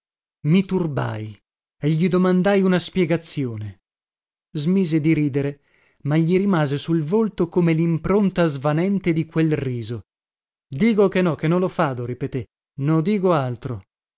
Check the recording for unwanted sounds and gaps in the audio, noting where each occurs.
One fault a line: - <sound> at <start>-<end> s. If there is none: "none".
none